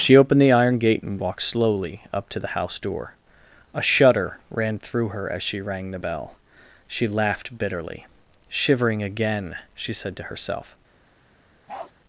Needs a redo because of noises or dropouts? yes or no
yes